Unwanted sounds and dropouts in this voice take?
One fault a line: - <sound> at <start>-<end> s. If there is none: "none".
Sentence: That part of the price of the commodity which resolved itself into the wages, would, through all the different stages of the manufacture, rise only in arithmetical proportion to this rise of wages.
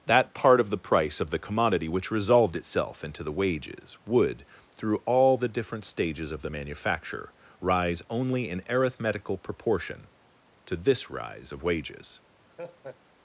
- laugh at 12.5-13.0 s